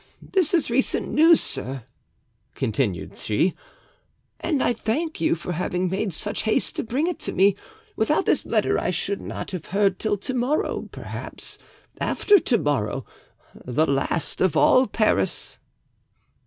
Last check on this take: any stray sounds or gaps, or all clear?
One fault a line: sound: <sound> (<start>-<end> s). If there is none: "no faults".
no faults